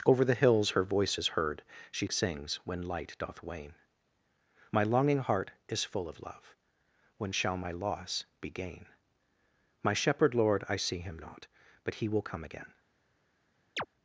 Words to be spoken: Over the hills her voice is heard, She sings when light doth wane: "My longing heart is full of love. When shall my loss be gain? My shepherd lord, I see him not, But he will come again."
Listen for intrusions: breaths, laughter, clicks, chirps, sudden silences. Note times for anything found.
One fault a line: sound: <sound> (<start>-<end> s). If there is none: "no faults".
sound: chirp (13.8-13.9 s)